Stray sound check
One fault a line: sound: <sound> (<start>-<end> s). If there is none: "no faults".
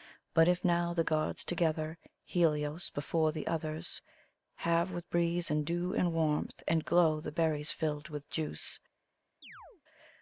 sound: chirp (9.4-9.8 s)